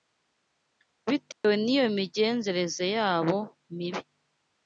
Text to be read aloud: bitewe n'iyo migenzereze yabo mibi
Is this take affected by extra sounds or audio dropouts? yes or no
yes